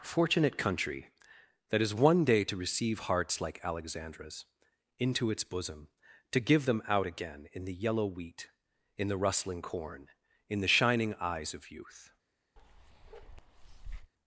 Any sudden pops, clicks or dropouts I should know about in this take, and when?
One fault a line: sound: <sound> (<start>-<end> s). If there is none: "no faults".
sound: bark (12.6-14.1 s)